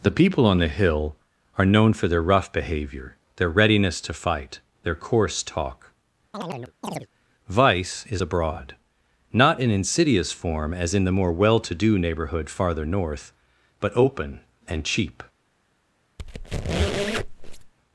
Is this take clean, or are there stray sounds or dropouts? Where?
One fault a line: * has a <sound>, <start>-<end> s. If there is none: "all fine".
* has a chirp, 6.3-7.1 s
* has a squeak, 16.2-17.7 s